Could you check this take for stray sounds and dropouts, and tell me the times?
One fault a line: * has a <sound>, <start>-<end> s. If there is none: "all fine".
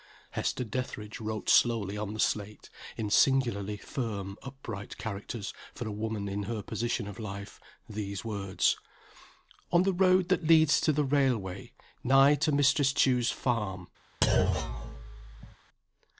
* has a thud, 14.2-15.6 s